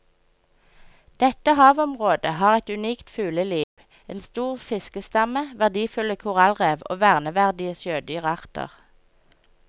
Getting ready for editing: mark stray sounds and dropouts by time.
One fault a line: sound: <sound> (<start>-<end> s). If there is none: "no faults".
sound: dropout (3.6-3.8 s)